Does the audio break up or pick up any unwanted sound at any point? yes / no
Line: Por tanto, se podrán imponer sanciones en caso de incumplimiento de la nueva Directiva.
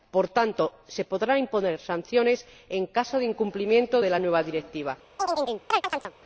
yes